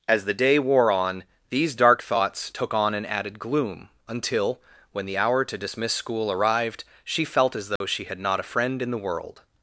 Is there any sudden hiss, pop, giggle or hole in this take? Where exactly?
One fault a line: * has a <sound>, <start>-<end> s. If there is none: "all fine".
* has a dropout, 7.8-7.8 s